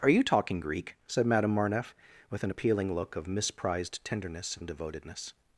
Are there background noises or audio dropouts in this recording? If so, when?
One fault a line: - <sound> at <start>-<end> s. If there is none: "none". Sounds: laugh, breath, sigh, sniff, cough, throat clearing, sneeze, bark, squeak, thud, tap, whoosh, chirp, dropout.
none